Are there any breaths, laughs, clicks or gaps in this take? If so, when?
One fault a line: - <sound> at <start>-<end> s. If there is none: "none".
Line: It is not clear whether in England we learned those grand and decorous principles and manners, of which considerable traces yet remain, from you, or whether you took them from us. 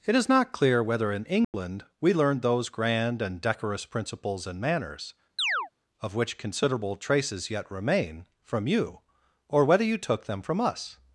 - dropout at 1.4-1.5 s
- chirp at 5.4-5.7 s